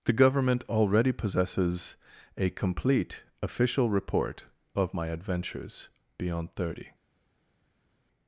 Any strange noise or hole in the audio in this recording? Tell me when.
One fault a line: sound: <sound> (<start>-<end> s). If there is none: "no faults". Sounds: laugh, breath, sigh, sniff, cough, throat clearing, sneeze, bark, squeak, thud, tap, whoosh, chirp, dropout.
no faults